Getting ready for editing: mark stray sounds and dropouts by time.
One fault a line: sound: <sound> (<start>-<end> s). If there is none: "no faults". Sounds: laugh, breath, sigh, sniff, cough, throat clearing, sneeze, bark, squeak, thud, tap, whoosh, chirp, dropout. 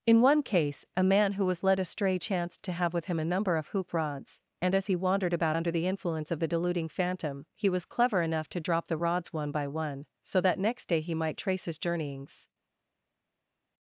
no faults